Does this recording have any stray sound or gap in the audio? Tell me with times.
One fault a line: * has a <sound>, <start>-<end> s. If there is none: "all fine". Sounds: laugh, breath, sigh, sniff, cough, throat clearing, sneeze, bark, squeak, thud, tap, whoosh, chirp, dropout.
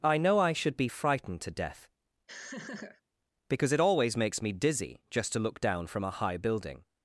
* has a laugh, 2.3-3.0 s